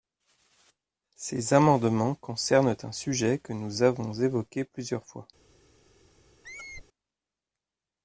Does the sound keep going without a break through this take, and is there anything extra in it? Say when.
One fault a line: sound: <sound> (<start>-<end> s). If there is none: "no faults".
sound: squeak (6.4-6.8 s)